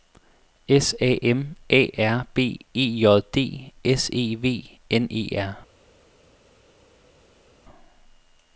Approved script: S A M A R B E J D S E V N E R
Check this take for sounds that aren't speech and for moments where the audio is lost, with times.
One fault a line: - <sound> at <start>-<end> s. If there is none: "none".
none